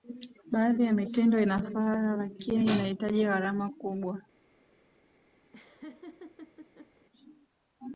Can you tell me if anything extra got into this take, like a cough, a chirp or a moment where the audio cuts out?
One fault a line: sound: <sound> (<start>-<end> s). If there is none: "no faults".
sound: laugh (5.5-7.1 s)